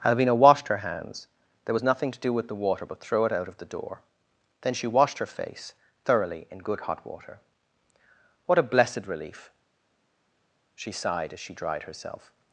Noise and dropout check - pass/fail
pass